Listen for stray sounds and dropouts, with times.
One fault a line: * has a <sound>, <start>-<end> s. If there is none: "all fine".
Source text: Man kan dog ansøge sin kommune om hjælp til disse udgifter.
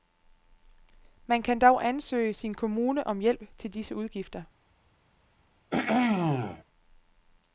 * has a throat clearing, 5.7-6.6 s